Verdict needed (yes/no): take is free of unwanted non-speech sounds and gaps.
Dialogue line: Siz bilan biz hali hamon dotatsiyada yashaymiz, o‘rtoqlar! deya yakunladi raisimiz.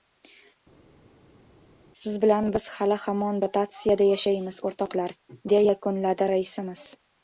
yes